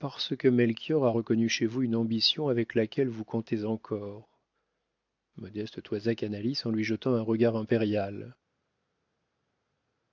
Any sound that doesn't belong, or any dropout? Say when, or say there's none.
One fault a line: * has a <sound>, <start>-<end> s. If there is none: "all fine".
all fine